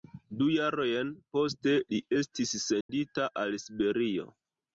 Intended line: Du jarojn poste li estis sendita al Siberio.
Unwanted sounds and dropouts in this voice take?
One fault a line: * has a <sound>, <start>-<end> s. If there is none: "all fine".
* has a dropout, 2.8-2.9 s